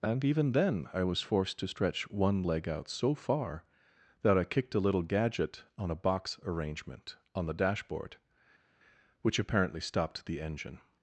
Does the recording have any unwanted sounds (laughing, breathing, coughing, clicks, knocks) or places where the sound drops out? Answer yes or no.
no